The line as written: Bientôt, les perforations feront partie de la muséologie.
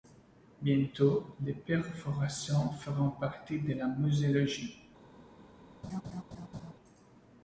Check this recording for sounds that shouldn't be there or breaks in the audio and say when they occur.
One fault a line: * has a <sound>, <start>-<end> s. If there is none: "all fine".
* has a laugh, 5.8-6.7 s